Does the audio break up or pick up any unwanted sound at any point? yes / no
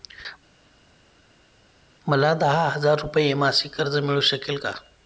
no